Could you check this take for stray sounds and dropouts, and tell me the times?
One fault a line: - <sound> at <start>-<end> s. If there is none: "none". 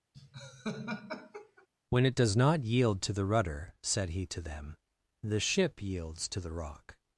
- laugh at 0.1-1.7 s